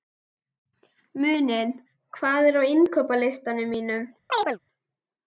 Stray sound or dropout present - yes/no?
yes